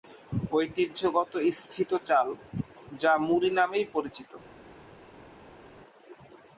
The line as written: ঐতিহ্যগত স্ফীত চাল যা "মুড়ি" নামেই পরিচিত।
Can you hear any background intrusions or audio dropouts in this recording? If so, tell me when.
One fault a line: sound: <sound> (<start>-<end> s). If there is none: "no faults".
no faults